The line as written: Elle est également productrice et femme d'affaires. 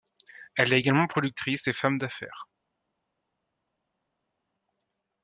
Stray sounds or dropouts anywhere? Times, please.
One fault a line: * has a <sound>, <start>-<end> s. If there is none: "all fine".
all fine